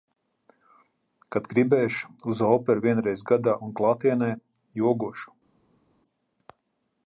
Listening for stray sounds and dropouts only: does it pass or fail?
pass